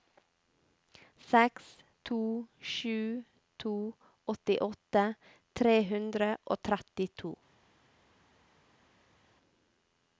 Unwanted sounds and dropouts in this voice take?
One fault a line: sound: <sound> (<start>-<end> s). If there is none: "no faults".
no faults